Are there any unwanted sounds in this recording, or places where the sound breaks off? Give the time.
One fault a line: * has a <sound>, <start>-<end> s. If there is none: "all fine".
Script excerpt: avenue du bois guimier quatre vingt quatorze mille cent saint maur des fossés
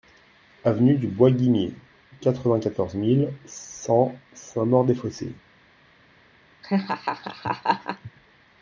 * has a laugh, 6.6-8.1 s